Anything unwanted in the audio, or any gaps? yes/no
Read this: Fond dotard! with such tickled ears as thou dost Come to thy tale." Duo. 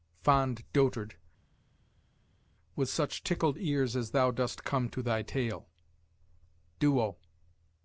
no